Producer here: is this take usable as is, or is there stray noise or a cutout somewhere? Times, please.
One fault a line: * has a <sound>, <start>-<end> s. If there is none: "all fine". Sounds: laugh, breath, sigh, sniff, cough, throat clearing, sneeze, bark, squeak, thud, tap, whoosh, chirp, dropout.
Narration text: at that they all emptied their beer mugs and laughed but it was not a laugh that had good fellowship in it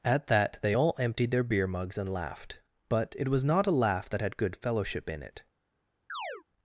* has a chirp, 6.1-6.4 s